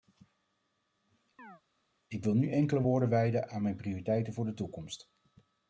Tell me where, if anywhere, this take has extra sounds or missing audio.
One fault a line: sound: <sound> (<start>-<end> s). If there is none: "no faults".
sound: chirp (1.4-1.6 s)